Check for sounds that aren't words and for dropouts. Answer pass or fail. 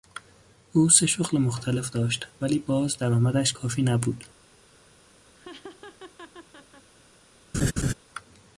fail